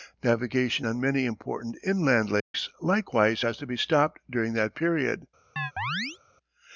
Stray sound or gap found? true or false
true